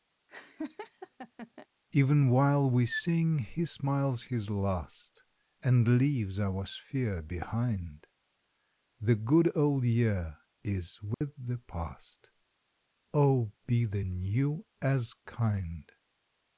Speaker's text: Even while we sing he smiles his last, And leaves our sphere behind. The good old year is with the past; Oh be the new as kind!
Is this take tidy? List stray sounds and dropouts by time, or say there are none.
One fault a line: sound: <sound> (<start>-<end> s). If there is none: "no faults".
sound: laugh (0.3-1.7 s)
sound: dropout (11.1-11.2 s)